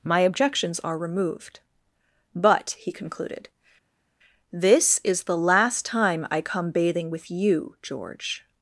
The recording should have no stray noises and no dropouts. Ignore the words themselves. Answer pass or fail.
pass